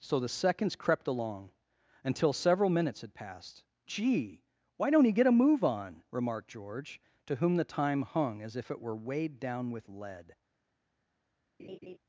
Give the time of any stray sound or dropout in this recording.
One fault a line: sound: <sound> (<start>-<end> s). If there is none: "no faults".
sound: laugh (11.6-12.0 s)